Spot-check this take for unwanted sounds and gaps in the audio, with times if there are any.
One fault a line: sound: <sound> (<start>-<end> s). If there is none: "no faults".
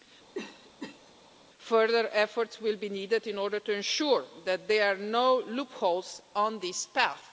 sound: cough (0.3-1.1 s)